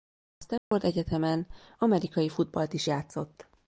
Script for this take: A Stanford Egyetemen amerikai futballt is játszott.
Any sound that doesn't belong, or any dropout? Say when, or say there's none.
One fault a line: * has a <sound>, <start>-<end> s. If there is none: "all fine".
* has a dropout, 0.6-0.7 s